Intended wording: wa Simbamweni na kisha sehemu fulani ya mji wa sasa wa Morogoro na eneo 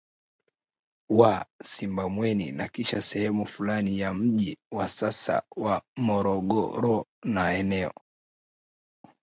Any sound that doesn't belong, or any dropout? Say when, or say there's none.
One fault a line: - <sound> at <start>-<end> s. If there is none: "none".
none